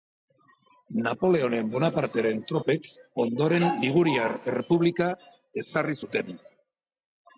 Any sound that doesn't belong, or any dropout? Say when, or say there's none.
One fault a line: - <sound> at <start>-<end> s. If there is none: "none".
none